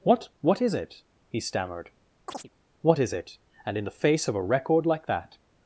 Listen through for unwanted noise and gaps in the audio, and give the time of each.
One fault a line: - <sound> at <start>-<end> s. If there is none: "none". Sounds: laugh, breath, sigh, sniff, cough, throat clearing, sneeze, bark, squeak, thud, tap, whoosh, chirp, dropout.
- chirp at 2.3-2.5 s